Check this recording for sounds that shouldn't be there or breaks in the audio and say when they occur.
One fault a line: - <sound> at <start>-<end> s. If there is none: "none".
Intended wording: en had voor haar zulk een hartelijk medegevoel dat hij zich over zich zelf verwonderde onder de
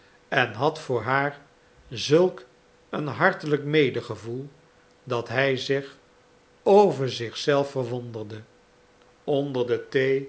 none